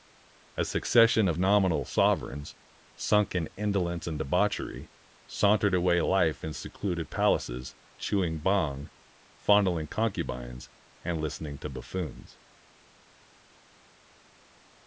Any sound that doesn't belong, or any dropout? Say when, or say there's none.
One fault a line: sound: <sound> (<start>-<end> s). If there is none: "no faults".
no faults